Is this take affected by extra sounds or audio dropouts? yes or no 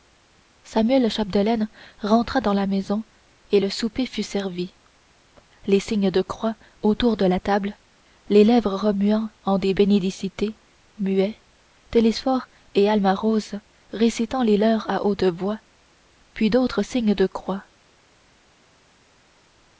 no